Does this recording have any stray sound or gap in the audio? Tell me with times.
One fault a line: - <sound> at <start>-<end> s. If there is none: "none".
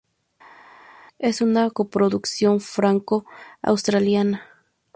none